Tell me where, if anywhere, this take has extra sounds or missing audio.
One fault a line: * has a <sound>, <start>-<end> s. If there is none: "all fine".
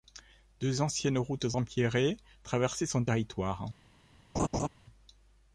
* has a laugh, 4.3-4.7 s